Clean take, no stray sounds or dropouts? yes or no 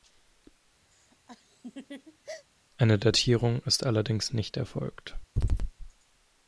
no